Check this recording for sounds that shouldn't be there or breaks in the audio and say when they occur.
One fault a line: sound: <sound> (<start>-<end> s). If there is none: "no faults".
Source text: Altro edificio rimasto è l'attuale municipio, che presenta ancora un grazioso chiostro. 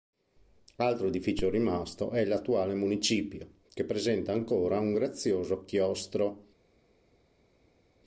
no faults